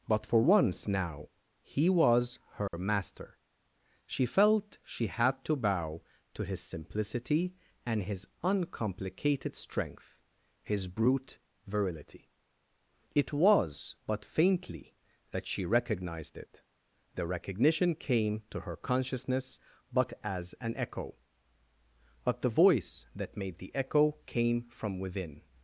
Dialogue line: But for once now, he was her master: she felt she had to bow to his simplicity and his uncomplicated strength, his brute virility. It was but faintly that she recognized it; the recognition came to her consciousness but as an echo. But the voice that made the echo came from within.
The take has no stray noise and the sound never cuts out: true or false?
false